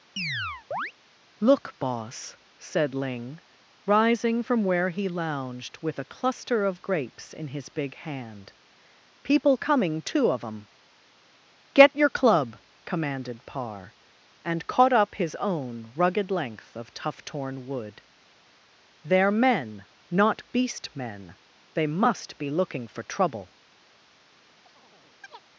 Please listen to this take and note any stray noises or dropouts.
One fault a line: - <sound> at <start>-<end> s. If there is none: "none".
- chirp at 0.2-0.9 s
- chirp at 24.7-25.4 s